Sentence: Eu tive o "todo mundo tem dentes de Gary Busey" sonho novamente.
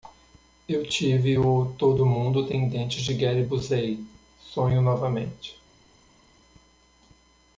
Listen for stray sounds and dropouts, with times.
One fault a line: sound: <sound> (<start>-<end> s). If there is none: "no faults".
no faults